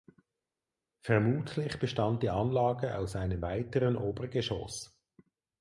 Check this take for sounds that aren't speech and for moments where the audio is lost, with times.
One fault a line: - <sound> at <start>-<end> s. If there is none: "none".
none